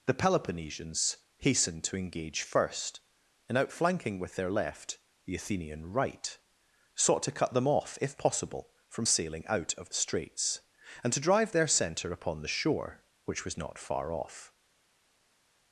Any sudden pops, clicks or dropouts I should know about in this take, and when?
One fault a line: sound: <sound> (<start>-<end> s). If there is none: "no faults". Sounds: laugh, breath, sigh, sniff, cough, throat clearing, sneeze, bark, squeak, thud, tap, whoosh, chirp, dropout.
no faults